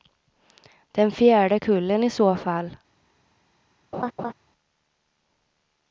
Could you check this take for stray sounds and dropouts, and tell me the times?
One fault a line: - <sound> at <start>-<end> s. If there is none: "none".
- laugh at 3.9-4.3 s